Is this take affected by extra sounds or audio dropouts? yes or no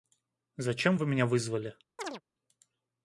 yes